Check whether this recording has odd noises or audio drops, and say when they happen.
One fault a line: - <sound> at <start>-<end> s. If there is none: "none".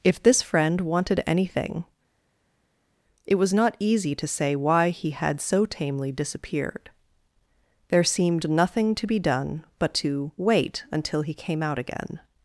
none